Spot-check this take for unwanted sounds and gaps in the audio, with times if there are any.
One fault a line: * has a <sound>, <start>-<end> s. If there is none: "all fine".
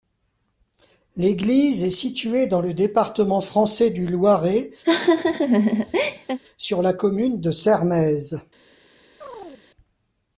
* has a laugh, 4.8-6.4 s
* has a chirp, 9.2-9.6 s